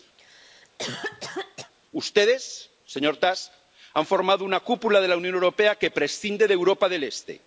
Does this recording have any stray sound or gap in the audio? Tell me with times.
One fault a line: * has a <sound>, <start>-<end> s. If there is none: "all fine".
* has a cough, 0.2-1.7 s